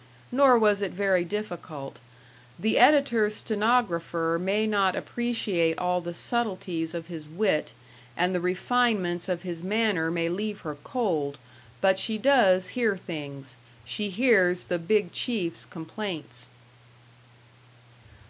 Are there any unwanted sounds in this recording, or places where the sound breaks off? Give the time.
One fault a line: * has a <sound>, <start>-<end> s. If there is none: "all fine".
all fine